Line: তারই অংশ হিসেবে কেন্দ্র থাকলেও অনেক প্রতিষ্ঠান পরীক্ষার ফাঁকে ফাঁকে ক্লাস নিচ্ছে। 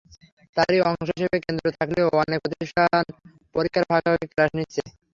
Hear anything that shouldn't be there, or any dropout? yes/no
no